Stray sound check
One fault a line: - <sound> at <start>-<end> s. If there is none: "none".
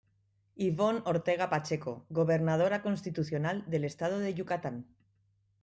none